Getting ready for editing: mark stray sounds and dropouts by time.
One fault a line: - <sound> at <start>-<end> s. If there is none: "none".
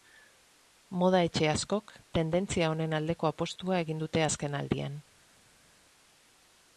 none